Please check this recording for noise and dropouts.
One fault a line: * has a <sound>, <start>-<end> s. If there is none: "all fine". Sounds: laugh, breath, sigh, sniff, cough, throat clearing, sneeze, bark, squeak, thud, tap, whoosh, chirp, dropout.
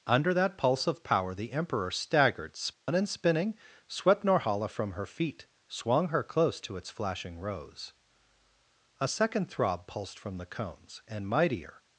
* has a dropout, 2.7-2.9 s